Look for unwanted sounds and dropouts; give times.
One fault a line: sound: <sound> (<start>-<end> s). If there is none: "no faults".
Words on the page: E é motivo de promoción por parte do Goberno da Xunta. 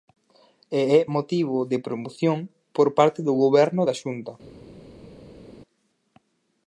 no faults